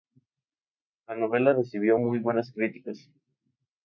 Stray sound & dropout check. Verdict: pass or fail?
pass